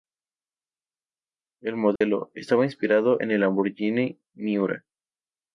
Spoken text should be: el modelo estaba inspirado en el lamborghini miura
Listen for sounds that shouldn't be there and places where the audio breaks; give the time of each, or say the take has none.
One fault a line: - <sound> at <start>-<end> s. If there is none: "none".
- dropout at 2.0-2.0 s